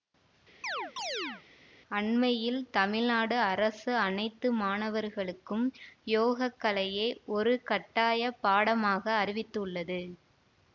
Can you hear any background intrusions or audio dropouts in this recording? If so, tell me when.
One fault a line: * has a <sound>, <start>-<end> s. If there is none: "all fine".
* has a chirp, 0.6-1.4 s